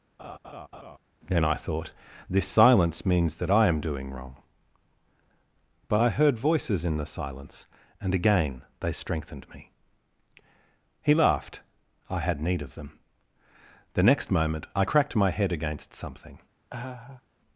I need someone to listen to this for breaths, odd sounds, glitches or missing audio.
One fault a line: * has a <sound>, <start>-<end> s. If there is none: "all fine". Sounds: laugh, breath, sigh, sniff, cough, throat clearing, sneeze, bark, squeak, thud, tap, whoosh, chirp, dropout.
* has a laugh, 0.2-1.0 s
* has a laugh, 16.7-17.2 s